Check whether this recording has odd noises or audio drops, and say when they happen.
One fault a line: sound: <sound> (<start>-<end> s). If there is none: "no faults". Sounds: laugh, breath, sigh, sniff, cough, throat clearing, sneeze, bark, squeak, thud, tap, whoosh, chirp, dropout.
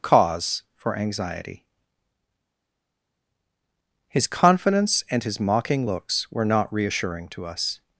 no faults